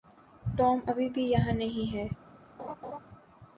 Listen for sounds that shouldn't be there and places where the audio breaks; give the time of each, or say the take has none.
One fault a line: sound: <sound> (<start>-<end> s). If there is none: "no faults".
sound: laugh (2.6-3.0 s)